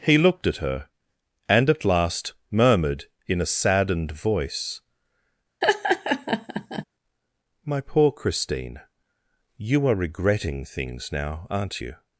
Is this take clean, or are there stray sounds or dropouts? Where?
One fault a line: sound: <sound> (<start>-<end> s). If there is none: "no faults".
sound: laugh (5.6-6.8 s)